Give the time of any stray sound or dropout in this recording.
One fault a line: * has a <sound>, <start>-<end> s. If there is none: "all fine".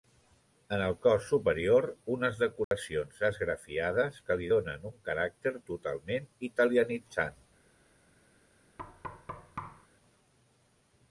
* has a dropout, 2.6-2.7 s
* has a thud, 8.8-9.9 s